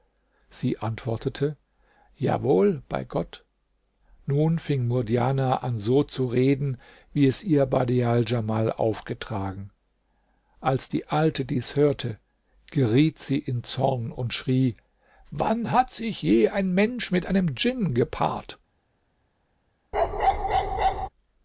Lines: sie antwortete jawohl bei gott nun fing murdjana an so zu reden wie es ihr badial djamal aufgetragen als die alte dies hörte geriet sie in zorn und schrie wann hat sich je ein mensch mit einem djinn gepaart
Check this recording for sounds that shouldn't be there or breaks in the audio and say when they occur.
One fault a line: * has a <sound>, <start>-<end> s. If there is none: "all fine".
* has a bark, 19.9-21.1 s